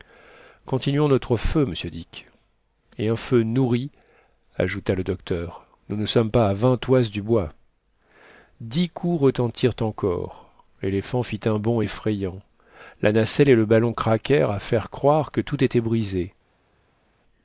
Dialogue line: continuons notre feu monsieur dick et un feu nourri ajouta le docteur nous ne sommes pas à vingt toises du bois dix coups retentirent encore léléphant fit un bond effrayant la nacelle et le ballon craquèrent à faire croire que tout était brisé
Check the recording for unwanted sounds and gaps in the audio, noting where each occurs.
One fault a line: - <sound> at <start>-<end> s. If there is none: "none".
none